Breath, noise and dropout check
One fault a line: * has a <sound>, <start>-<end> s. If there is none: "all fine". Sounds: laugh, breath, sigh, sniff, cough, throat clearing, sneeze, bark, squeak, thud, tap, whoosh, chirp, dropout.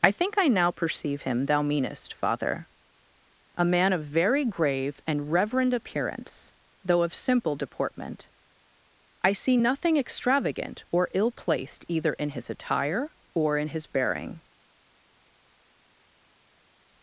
all fine